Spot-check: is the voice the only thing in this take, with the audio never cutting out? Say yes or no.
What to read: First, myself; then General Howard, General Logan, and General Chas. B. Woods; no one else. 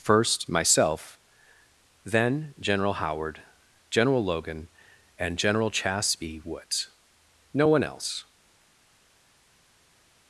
yes